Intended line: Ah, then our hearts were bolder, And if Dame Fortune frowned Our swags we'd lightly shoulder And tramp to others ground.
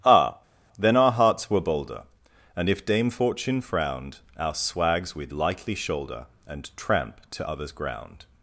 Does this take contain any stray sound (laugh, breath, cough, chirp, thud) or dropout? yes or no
no